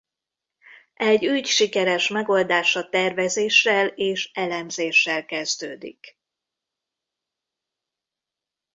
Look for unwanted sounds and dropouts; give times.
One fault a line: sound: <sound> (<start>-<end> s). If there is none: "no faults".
no faults